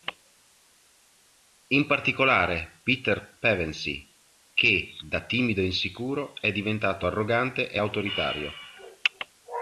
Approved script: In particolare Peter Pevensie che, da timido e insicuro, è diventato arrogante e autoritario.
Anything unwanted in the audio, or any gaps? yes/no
no